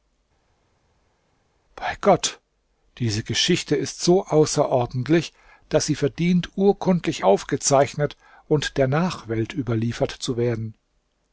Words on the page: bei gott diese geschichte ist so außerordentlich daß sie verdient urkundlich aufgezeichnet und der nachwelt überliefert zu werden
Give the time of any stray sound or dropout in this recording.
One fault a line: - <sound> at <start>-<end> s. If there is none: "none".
none